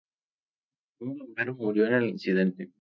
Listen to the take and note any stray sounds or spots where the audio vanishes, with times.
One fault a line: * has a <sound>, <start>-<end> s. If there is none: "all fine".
all fine